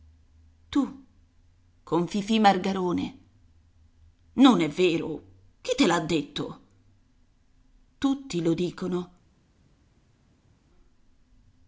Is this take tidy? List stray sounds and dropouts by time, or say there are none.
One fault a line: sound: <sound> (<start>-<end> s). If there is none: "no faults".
no faults